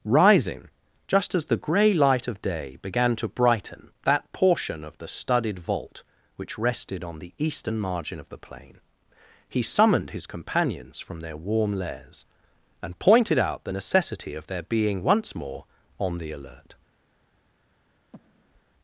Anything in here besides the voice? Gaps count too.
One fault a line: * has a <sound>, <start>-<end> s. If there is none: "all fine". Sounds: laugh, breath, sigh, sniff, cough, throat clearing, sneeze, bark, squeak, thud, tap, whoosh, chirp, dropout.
* has a breath, 18.1-18.6 s